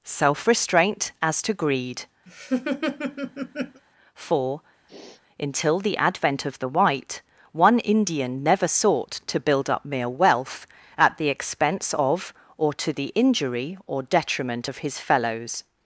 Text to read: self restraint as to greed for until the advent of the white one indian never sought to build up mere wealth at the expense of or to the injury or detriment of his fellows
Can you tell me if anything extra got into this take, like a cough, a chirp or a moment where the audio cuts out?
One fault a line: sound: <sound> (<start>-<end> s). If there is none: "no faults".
sound: laugh (2.3-3.8 s)
sound: sniff (4.9-5.2 s)